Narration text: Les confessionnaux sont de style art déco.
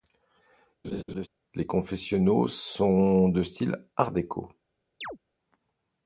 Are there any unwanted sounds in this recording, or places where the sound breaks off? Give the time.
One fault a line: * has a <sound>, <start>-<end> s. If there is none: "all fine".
* has a laugh, 0.8-1.3 s
* has a chirp, 5.0-5.2 s